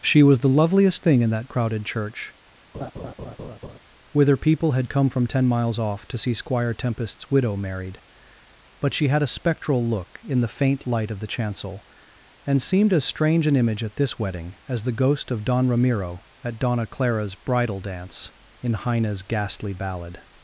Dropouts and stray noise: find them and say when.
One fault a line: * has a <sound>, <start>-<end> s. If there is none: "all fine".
* has a laugh, 2.7-3.8 s